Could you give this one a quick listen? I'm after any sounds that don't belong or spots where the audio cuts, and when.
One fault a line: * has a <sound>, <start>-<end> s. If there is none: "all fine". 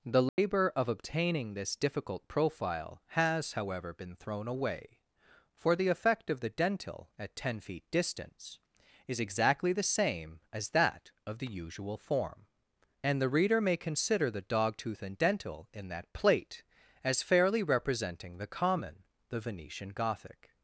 * has a dropout, 0.3-0.4 s